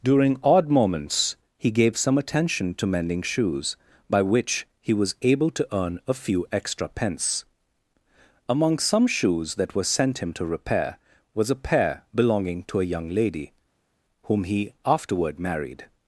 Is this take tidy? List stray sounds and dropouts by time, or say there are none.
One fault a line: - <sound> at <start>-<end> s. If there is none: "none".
none